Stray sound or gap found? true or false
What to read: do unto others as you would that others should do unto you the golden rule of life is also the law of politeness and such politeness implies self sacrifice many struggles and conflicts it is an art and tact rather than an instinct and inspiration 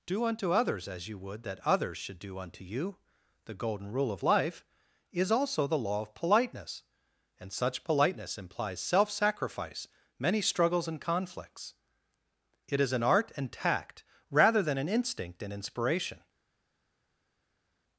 false